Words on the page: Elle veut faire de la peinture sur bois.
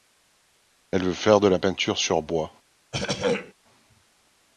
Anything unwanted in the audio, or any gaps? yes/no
yes